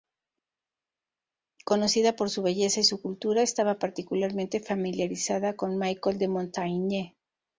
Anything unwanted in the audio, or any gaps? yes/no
no